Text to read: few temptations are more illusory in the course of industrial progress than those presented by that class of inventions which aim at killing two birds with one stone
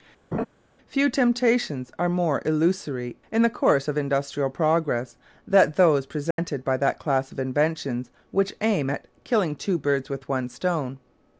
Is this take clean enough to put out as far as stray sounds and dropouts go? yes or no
no